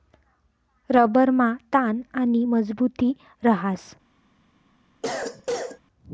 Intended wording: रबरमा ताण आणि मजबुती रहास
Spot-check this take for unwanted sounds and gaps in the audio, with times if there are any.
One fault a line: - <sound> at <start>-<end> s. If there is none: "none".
- cough at 5.0-5.8 s